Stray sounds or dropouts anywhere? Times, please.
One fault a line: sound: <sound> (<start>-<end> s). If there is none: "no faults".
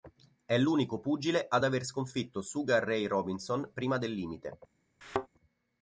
sound: thud (5.0-5.3 s)